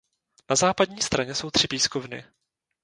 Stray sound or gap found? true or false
false